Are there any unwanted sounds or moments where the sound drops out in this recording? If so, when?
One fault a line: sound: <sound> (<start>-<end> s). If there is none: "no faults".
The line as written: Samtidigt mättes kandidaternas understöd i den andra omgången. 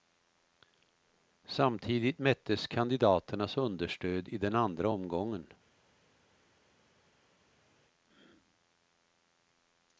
no faults